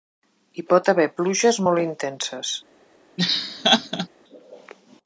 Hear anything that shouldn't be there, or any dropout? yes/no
yes